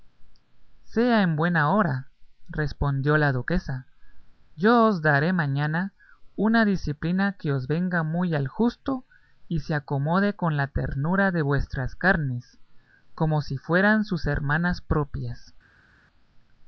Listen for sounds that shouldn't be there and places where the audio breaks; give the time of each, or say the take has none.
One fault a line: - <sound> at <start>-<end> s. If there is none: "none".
none